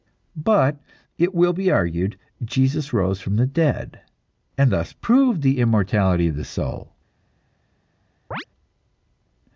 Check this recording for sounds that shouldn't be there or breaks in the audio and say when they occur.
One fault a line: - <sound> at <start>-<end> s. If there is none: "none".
- chirp at 8.3-8.4 s